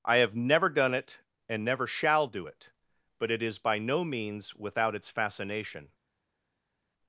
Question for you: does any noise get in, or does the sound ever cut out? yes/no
no